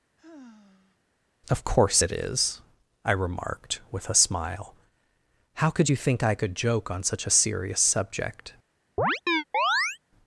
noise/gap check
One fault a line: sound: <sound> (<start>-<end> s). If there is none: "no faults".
sound: sigh (0.2-1.0 s)
sound: chirp (9.0-10.0 s)